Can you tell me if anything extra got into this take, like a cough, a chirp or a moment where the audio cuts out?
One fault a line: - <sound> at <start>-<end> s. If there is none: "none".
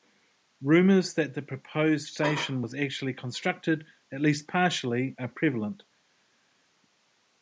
none